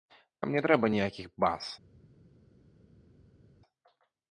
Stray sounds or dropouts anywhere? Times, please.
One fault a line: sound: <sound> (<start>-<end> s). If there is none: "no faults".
no faults